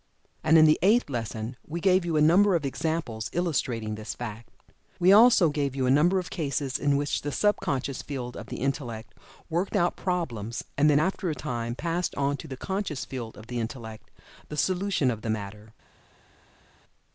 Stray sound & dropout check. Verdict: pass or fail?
pass